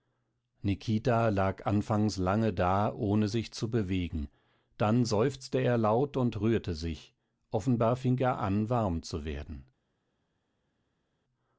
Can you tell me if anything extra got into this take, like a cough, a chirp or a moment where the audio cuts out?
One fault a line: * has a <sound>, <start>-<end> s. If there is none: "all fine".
all fine